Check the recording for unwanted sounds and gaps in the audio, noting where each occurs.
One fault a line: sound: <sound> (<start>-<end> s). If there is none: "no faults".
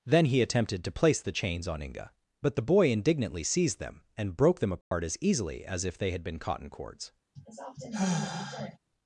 sound: dropout (4.8-4.9 s)
sound: sigh (7.4-8.8 s)